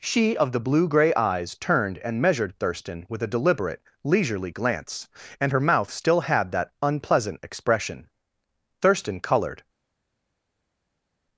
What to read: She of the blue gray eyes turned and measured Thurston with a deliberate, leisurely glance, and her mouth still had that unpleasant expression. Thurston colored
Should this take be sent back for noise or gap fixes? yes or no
no